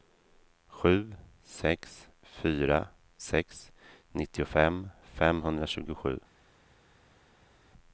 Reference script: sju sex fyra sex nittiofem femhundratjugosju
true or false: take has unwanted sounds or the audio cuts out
false